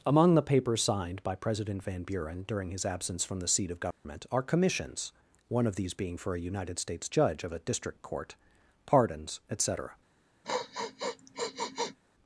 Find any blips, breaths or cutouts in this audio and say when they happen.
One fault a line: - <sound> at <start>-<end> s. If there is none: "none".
- dropout at 3.9-4.0 s
- sniff at 10.4-12.0 s